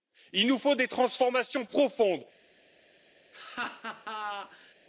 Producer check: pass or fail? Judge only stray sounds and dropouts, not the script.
fail